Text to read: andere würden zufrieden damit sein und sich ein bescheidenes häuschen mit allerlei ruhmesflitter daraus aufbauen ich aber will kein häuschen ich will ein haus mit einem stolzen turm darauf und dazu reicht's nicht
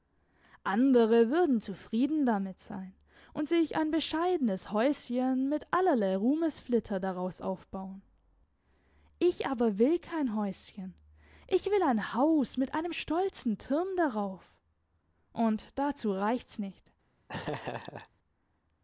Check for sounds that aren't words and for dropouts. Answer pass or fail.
fail